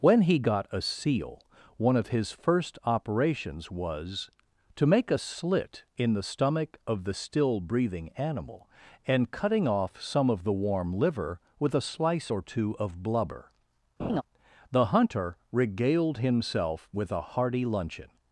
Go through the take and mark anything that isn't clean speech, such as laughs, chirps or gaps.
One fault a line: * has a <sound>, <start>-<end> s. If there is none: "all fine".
* has a laugh, 14.0-14.2 s